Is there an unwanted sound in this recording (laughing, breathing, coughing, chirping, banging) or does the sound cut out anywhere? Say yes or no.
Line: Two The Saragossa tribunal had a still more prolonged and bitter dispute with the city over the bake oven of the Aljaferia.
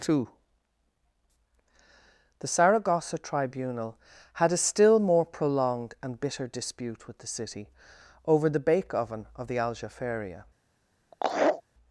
yes